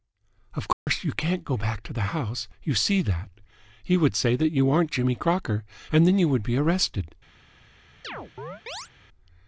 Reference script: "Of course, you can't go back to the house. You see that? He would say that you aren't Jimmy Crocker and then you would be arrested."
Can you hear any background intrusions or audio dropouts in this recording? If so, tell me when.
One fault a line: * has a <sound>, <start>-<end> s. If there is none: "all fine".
* has a dropout, 0.7-0.9 s
* has a chirp, 8.0-8.9 s